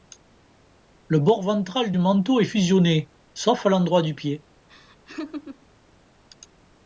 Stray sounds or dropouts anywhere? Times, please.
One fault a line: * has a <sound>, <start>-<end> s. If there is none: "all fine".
* has a laugh, 4.7-5.7 s